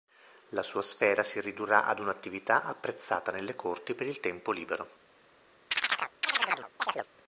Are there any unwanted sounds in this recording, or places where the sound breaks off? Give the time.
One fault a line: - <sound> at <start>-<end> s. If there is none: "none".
- chirp at 5.7-7.1 s